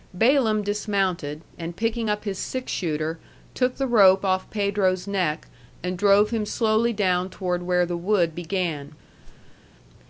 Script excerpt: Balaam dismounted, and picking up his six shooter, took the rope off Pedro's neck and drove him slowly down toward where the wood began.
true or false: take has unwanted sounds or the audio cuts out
true